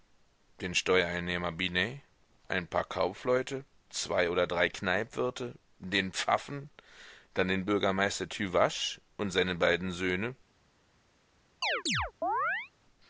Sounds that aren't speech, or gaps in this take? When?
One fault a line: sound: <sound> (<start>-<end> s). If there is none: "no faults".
sound: chirp (11.6-12.7 s)